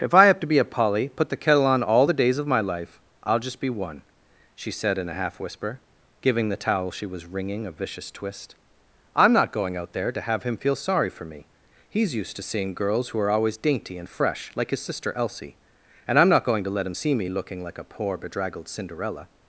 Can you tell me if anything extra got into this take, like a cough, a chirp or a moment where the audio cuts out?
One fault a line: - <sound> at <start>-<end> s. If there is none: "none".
none